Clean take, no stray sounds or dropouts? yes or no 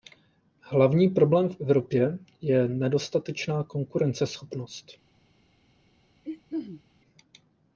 no